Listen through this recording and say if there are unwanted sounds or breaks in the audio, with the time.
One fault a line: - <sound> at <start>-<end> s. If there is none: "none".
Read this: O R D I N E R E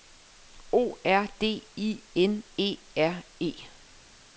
none